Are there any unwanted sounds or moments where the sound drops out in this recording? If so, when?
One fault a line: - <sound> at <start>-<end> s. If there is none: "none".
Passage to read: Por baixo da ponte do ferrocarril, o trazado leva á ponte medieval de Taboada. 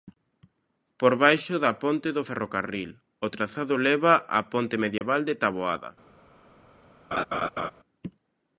- dropout at 5.0-5.0 s
- laugh at 7.1-7.7 s